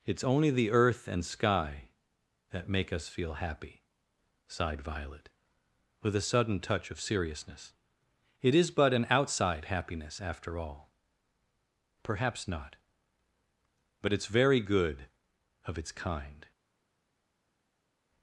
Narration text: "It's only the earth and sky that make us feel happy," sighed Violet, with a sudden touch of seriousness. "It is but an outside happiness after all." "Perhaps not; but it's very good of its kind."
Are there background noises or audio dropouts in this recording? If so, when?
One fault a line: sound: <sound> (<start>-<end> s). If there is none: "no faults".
no faults